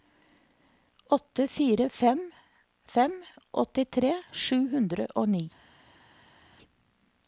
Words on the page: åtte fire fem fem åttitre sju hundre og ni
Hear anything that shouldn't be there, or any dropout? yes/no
no